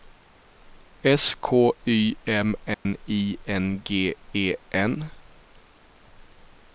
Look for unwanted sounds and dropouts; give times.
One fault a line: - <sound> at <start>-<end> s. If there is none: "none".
- dropout at 2.7-2.9 s